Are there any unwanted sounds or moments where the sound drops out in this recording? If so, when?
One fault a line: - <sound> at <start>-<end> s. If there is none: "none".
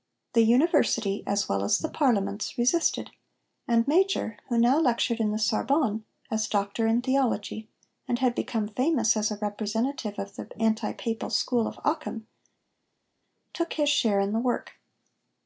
none